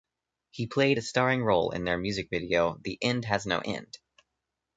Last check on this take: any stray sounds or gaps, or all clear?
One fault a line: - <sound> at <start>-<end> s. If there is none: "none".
none